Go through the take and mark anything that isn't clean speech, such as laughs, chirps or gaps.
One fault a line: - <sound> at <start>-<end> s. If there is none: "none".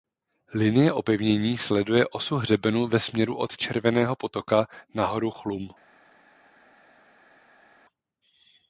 none